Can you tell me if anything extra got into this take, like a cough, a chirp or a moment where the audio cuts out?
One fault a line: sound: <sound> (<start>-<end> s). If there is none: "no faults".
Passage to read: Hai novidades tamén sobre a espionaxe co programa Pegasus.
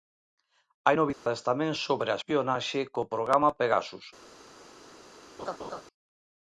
sound: dropout (1.1-1.3 s)
sound: laugh (5.4-5.8 s)